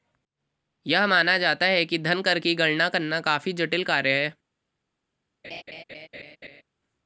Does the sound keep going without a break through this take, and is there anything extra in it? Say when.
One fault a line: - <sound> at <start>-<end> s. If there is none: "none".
- laugh at 5.4-6.6 s